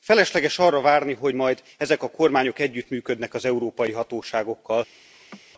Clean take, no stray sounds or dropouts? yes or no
no